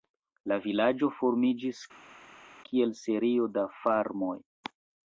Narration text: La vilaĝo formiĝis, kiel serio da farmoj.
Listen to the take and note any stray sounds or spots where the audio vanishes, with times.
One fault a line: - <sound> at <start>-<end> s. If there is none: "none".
none